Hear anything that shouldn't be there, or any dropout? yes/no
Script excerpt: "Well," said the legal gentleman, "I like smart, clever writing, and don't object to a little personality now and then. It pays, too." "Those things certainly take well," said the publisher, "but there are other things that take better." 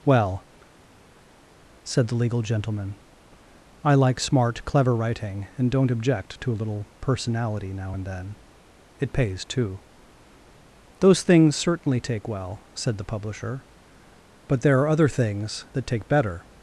no